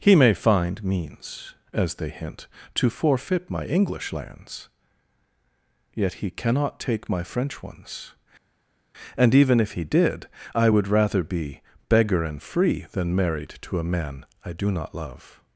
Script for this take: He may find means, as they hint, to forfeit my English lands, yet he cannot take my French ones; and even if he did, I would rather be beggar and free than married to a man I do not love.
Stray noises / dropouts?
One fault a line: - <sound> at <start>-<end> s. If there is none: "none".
none